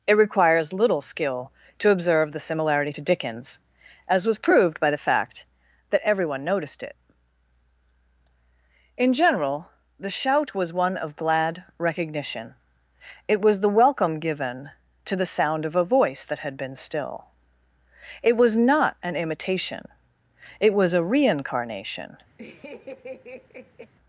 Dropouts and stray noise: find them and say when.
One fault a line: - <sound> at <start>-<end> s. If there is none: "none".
- laugh at 22.4-23.9 s